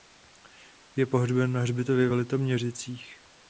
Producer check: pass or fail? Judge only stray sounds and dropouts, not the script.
pass